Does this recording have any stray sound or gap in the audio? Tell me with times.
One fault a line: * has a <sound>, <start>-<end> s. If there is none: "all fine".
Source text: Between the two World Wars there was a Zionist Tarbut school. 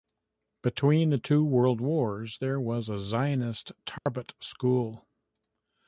* has a dropout, 4.0-4.1 s